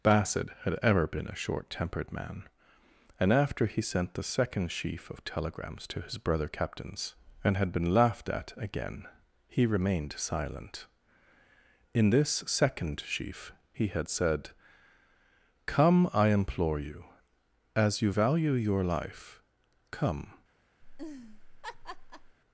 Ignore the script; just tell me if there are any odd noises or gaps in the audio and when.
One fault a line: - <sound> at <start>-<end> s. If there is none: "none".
- laugh at 20.8-22.4 s